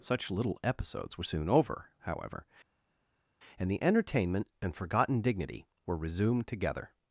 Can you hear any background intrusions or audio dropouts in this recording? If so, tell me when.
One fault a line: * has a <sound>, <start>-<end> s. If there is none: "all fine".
all fine